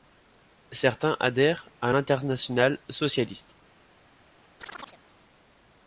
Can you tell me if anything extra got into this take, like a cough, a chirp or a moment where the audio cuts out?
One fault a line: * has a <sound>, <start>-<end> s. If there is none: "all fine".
* has a chirp, 4.6-5.0 s